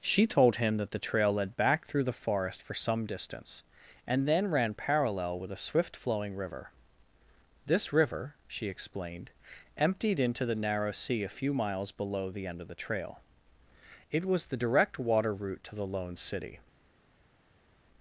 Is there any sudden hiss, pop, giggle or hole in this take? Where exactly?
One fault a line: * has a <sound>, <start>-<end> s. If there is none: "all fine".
all fine